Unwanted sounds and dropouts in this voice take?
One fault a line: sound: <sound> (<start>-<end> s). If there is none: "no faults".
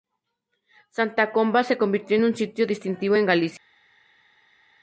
no faults